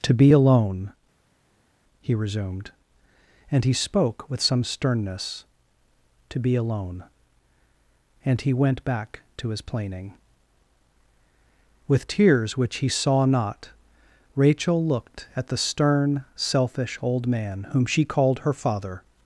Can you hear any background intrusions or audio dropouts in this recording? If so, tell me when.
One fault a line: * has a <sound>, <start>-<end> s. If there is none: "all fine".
all fine